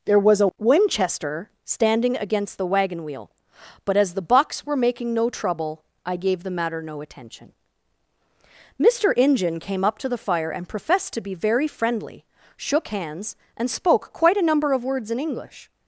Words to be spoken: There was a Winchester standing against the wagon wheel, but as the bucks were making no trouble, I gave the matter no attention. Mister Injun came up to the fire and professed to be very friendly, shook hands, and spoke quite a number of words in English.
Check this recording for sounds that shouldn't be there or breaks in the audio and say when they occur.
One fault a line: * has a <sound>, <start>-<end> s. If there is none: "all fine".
all fine